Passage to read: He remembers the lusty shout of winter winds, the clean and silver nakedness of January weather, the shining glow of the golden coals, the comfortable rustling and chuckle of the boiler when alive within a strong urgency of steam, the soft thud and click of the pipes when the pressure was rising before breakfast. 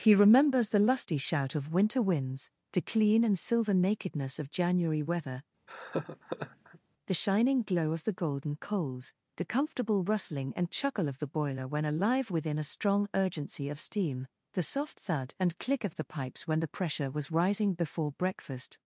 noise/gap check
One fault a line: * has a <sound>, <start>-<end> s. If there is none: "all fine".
* has a laugh, 5.7-6.8 s